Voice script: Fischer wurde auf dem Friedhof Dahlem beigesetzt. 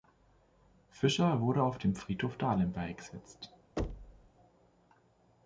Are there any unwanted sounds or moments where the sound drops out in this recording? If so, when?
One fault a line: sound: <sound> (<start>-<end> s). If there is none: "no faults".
sound: thud (3.8-4.3 s)